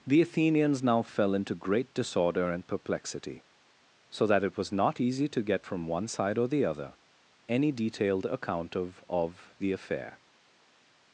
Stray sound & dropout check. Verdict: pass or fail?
pass